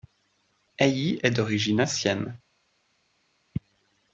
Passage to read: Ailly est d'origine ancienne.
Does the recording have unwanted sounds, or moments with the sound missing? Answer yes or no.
no